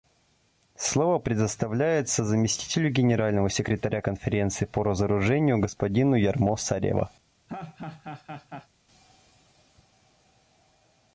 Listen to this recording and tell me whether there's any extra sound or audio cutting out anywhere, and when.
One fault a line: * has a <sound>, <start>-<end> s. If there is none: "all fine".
* has a laugh, 7.5-8.7 s